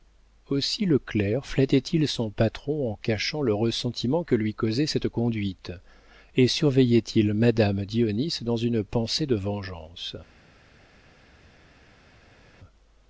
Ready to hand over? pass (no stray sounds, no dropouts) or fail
pass